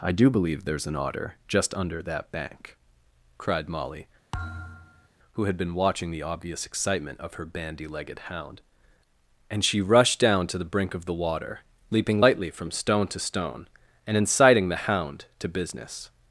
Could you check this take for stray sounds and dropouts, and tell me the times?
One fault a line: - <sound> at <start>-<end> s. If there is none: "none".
- thud at 4.3-5.1 s